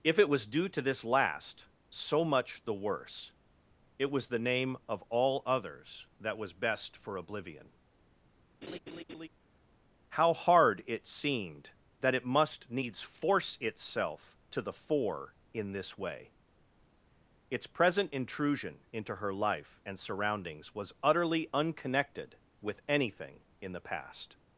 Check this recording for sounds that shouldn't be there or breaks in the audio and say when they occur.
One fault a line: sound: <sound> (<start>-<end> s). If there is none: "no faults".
sound: laugh (8.6-9.3 s)